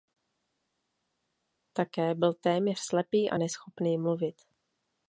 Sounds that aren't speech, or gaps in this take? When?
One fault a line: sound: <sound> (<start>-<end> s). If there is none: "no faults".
no faults